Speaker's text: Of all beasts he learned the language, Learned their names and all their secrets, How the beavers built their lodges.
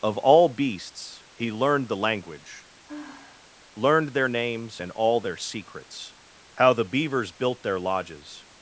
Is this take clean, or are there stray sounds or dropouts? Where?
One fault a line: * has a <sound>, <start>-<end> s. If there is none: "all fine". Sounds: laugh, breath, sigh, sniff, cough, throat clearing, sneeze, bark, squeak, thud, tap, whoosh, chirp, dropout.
* has a sigh, 2.8-3.5 s